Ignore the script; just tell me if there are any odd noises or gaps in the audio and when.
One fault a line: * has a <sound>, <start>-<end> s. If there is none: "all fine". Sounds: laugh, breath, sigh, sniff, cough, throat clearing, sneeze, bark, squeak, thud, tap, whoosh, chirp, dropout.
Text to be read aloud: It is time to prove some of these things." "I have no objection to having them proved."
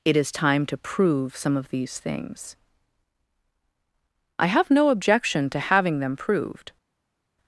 all fine